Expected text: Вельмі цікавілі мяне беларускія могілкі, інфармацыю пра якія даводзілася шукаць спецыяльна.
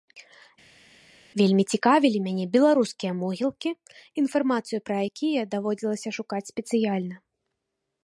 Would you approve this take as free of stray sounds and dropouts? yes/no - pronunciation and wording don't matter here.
yes